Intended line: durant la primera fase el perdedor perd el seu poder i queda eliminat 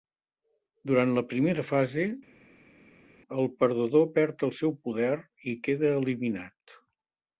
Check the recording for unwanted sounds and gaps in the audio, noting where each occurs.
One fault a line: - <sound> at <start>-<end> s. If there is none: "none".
none